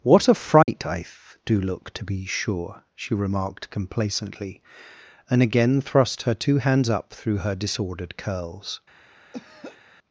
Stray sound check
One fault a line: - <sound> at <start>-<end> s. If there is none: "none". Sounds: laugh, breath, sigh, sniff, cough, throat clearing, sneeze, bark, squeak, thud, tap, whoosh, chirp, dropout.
- dropout at 0.6-0.7 s
- throat clearing at 9.3-9.8 s